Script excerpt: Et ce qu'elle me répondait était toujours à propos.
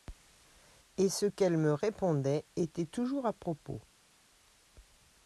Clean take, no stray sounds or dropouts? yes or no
yes